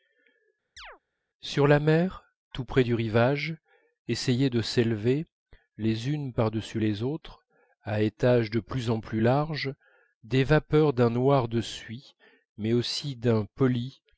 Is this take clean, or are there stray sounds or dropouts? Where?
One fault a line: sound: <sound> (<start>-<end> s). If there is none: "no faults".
sound: chirp (0.8-1.0 s)